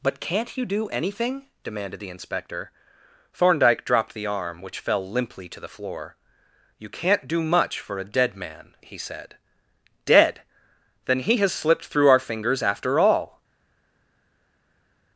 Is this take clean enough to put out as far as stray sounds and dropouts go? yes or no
yes